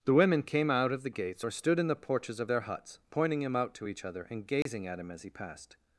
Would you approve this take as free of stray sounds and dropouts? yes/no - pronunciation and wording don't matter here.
no